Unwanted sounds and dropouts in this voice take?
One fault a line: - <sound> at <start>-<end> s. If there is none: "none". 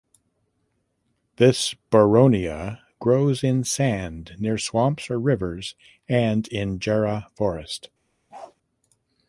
- bark at 8.3-8.6 s